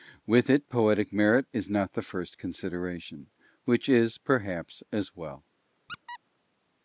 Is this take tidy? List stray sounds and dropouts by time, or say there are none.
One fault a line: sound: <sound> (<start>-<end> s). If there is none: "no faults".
sound: squeak (5.9-6.2 s)